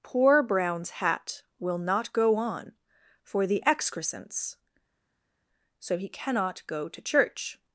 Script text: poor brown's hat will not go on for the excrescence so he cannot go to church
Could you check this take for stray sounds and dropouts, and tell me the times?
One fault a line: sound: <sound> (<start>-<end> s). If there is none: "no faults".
no faults